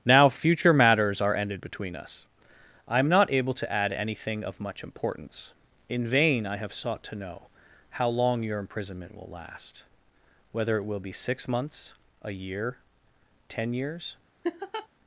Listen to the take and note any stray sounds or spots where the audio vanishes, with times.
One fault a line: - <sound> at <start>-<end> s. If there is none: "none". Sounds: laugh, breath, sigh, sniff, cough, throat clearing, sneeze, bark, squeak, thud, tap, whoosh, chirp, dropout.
- laugh at 14.4-14.9 s